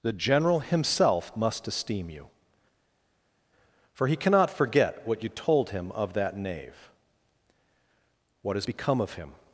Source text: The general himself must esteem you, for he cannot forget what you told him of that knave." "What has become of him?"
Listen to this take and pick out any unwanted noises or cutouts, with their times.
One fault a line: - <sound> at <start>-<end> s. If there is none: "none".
none